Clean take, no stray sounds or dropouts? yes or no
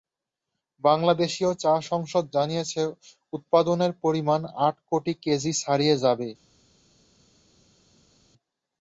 yes